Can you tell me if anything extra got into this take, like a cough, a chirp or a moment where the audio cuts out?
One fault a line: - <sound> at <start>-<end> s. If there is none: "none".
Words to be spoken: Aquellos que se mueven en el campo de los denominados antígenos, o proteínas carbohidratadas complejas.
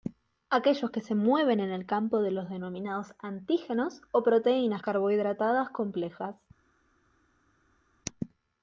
none